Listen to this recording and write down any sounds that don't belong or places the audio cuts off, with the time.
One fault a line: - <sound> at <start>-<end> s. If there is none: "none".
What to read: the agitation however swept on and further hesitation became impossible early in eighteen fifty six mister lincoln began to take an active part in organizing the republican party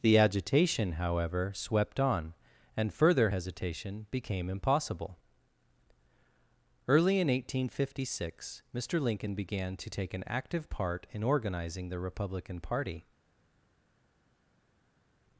none